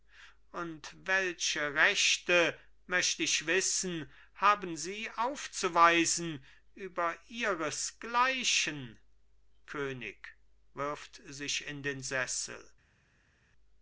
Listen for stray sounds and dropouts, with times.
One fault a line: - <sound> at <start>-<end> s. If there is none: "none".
none